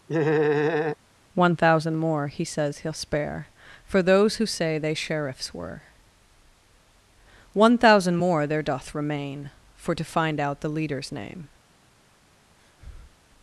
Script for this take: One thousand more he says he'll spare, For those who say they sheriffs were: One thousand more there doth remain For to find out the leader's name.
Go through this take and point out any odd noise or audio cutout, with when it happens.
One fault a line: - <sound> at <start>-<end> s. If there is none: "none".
- laugh at 0.1-1.0 s
- breath at 12.6-13.2 s